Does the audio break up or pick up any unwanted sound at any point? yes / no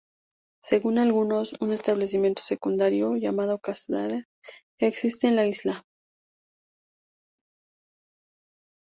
no